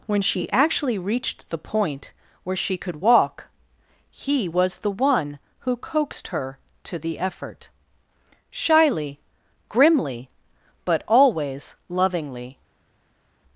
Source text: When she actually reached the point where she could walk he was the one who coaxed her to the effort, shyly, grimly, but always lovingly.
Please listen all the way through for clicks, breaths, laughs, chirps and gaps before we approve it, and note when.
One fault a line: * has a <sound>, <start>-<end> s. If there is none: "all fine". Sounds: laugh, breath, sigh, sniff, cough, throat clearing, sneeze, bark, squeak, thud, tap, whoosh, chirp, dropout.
all fine